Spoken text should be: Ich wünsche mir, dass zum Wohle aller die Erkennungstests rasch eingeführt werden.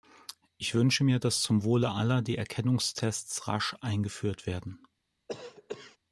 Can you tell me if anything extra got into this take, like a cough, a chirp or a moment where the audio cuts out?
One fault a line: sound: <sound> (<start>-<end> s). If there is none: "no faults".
sound: cough (5.3-6.0 s)